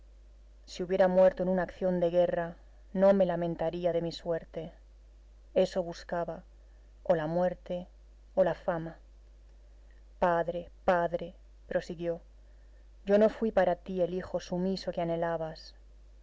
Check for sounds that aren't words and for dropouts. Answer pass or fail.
pass